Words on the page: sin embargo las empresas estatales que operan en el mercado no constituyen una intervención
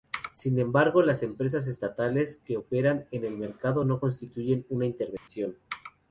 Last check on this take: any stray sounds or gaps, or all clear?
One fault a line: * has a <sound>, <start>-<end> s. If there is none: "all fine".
* has a dropout, 5.2-5.3 s